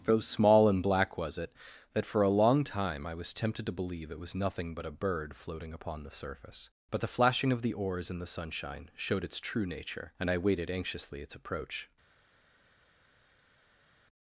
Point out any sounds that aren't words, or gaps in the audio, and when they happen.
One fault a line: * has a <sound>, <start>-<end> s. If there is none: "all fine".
all fine